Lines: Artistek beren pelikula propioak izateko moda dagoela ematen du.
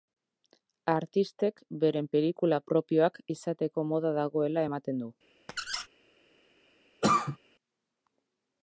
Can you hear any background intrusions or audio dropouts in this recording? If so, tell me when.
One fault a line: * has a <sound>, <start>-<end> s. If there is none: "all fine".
* has a squeak, 5.5-5.9 s
* has a cough, 7.0-7.4 s